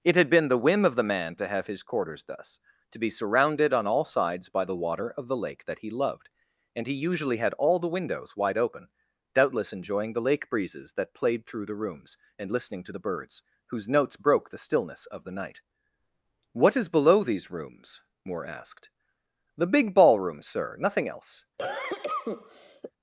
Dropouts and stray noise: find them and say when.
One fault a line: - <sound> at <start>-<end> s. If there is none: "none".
- cough at 21.6-22.9 s